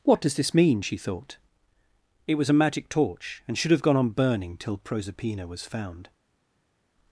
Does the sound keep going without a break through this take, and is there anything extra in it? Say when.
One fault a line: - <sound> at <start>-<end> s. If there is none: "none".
none